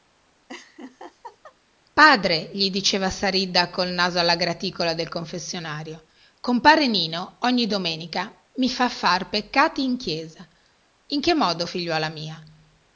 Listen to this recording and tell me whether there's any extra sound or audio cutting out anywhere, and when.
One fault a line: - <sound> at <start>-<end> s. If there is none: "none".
- laugh at 0.5-1.6 s